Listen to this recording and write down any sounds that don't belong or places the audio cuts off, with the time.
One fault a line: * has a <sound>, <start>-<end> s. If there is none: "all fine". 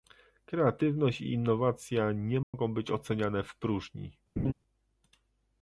* has a dropout, 2.4-2.5 s
* has a laugh, 4.4-4.5 s